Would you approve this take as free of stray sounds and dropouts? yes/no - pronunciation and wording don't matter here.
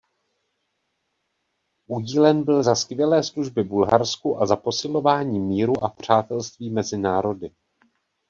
yes